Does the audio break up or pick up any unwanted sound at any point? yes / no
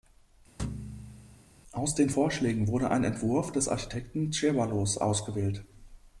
yes